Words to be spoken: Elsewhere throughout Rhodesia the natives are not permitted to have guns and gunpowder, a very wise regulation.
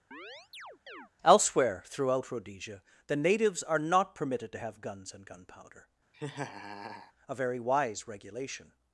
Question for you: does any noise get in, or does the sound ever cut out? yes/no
yes